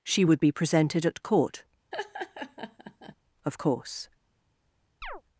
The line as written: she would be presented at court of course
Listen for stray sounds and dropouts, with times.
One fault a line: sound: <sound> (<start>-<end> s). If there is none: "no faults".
sound: laugh (1.9-3.2 s)
sound: chirp (5.0-5.2 s)